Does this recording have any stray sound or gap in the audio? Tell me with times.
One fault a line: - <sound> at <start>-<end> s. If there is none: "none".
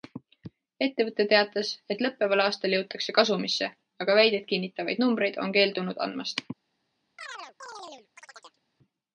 - chirp at 7.2-8.6 s